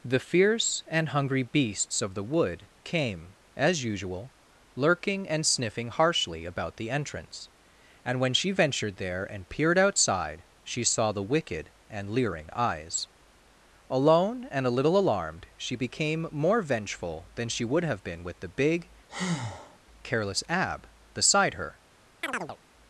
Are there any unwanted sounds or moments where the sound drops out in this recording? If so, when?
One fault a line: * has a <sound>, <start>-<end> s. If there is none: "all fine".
* has a breath, 19.1-19.8 s
* has a chirp, 22.2-22.6 s